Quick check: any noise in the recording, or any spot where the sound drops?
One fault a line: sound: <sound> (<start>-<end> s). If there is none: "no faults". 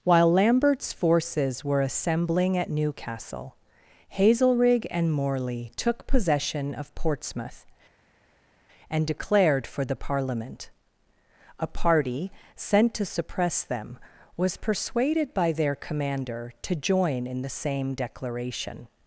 no faults